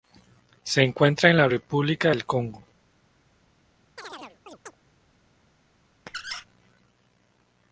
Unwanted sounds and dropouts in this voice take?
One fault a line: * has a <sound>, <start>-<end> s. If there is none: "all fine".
* has a chirp, 4.0-4.8 s
* has a squeak, 6.1-6.5 s